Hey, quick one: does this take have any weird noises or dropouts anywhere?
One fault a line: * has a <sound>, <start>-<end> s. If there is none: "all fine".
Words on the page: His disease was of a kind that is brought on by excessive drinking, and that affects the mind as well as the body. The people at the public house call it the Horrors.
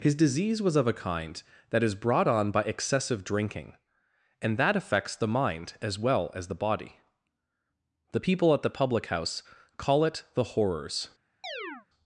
* has a chirp, 11.4-11.9 s